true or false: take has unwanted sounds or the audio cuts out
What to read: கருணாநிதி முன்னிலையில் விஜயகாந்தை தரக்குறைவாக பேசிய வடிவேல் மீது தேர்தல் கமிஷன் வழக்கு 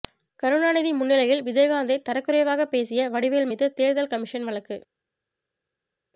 false